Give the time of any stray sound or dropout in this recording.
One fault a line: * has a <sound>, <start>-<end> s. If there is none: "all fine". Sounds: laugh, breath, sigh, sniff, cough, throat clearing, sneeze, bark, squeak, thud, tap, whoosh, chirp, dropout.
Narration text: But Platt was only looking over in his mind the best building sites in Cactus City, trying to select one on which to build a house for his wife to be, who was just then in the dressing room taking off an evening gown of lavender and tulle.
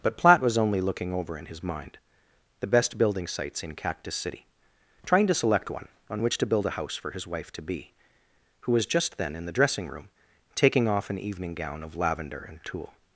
all fine